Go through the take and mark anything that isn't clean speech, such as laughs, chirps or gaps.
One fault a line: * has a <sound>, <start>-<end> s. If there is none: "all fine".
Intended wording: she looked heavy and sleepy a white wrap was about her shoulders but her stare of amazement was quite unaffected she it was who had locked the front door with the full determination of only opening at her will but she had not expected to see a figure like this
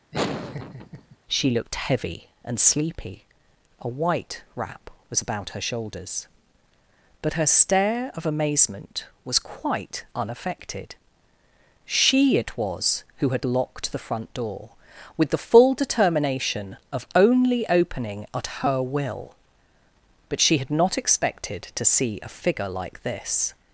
* has a laugh, 0.1-1.2 s